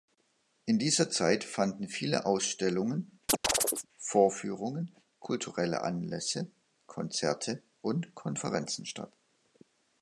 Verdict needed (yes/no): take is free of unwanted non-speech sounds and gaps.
no